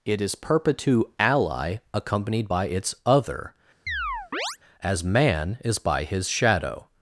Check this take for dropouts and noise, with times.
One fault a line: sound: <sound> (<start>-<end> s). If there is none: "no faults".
sound: chirp (3.9-4.6 s)